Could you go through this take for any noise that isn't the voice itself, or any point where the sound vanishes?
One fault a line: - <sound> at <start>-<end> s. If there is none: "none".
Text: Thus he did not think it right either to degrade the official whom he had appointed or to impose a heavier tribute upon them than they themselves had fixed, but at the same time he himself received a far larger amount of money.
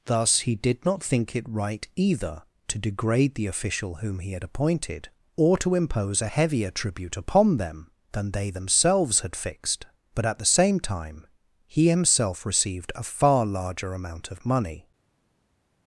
none